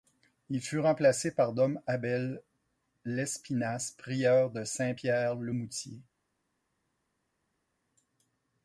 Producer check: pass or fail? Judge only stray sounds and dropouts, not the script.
pass